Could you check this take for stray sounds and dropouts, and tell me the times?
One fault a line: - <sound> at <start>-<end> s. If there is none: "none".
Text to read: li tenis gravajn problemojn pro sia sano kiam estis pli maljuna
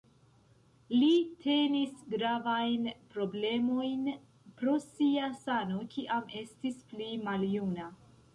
none